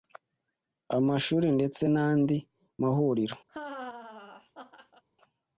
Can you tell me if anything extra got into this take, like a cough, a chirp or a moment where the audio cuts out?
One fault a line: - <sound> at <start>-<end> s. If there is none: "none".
- laugh at 3.5-5.0 s